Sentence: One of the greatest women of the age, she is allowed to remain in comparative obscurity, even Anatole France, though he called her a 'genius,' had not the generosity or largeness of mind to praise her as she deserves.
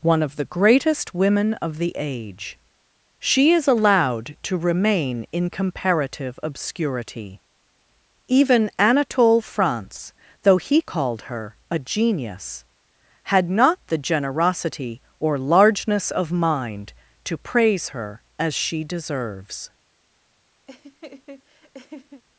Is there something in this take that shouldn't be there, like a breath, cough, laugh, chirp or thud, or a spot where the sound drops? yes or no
yes